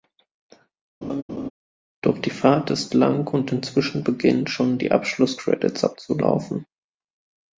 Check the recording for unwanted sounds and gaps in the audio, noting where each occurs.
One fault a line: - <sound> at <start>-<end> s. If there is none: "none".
- laugh at 1.0-1.5 s